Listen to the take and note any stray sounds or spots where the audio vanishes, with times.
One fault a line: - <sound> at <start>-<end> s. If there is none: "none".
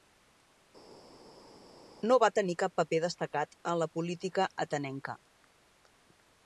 none